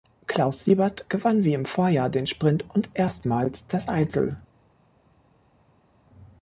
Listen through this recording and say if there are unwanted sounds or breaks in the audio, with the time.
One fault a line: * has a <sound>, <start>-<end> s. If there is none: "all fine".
all fine